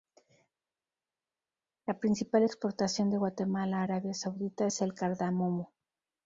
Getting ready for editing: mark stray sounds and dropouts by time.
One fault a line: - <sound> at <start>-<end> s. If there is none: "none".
none